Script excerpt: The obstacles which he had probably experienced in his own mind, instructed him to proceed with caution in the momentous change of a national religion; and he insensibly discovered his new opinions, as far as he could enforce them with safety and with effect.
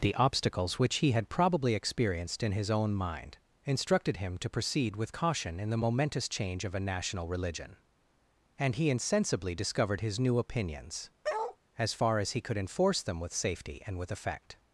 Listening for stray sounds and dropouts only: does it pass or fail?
fail